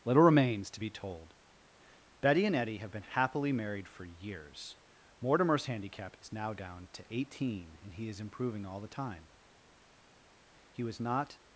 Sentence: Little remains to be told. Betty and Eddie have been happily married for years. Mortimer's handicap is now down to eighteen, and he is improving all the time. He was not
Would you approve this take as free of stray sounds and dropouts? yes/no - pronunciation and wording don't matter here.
yes